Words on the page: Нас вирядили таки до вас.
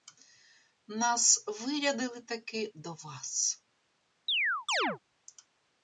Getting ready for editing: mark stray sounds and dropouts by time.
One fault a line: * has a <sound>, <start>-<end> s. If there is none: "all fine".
* has a chirp, 4.3-5.0 s